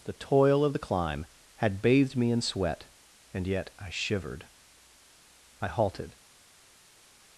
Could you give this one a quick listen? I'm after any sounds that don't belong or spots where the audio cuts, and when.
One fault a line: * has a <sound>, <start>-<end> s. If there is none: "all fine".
all fine